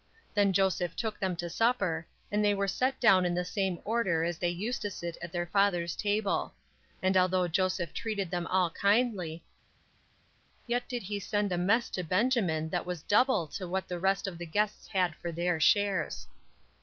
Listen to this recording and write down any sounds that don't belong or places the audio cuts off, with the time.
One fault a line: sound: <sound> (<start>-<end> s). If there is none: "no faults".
no faults